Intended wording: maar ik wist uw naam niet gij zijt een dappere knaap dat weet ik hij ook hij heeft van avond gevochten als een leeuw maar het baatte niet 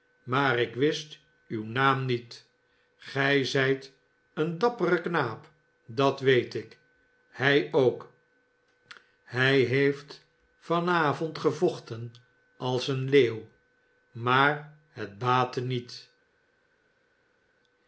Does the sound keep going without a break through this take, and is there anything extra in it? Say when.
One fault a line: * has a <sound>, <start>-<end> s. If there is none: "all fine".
all fine